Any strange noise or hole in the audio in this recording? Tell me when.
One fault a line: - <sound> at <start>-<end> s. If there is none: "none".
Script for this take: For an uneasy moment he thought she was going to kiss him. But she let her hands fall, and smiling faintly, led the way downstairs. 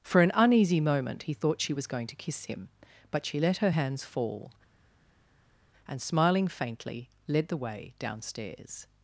none